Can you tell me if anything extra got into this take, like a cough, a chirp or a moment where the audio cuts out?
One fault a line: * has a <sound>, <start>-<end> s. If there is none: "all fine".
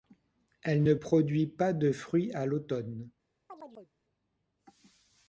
* has a chirp, 3.5-3.9 s